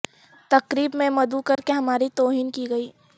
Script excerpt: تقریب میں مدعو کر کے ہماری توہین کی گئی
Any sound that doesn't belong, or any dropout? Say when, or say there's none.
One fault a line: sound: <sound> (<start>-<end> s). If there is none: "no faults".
sound: dropout (1.5-1.6 s)